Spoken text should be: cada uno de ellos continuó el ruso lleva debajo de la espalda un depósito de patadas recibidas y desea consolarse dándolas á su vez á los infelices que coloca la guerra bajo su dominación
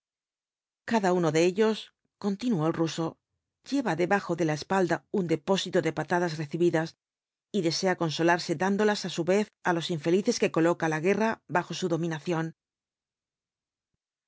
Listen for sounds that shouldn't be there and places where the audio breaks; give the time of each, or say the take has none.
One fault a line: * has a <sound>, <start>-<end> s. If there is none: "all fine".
all fine